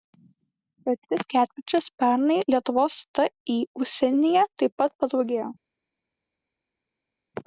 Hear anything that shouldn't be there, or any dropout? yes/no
no